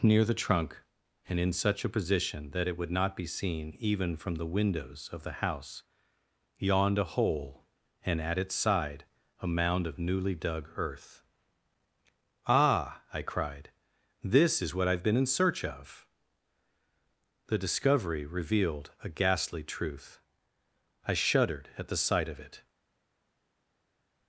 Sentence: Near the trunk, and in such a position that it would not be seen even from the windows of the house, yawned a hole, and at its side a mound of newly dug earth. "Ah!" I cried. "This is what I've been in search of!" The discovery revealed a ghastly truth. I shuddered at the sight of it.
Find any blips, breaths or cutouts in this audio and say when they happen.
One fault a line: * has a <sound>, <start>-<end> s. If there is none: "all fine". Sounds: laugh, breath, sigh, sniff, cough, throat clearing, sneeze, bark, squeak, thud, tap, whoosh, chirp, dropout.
all fine